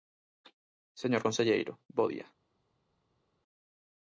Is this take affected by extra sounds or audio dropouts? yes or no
no